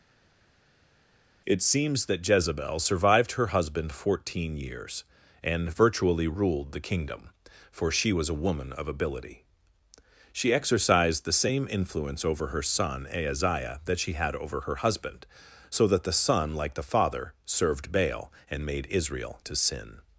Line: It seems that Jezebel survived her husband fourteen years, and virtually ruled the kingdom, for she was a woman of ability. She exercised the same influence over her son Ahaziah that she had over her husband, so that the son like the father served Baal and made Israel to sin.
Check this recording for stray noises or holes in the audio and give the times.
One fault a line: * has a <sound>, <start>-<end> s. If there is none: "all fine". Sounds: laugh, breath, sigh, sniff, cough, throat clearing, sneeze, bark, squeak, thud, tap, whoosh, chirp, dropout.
all fine